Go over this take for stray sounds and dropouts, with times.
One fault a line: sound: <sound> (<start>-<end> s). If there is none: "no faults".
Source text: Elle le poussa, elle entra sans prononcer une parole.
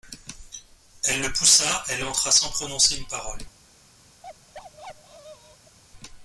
sound: bark (4.2-5.8 s)